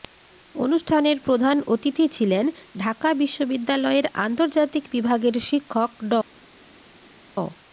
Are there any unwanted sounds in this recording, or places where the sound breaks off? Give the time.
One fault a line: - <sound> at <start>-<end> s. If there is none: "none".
none